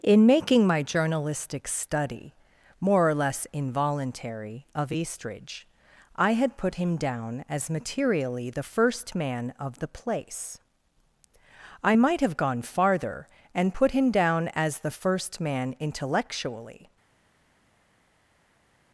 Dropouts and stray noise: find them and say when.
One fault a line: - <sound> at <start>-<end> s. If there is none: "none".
none